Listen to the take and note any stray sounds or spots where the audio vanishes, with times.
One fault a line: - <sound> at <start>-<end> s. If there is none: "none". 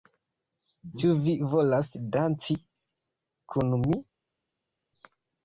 none